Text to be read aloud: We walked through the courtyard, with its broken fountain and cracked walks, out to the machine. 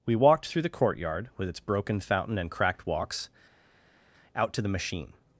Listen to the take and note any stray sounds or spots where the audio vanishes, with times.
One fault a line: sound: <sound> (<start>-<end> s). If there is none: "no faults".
no faults